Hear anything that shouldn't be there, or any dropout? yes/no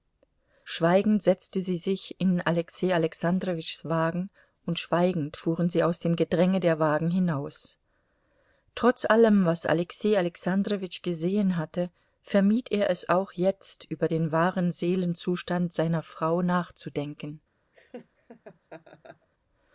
yes